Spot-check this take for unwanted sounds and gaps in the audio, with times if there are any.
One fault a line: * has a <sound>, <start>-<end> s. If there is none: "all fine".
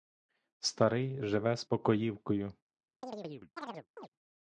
* has a chirp, 3.0-4.1 s